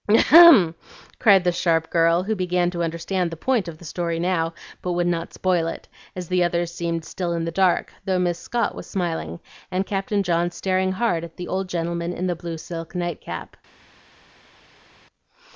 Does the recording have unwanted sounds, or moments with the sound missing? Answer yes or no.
no